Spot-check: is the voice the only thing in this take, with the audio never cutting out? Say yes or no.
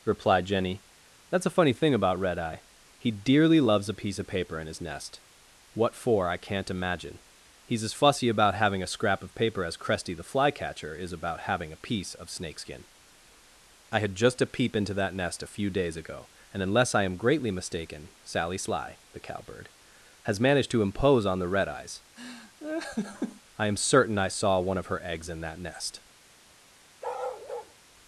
no